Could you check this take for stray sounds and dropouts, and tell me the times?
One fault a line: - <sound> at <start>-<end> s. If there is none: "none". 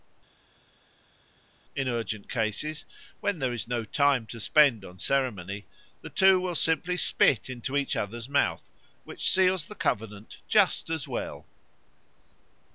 none